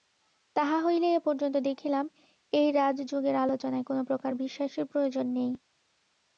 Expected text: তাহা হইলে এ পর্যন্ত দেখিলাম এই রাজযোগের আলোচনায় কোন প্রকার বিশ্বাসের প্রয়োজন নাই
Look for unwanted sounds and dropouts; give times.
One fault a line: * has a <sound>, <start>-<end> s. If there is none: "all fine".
all fine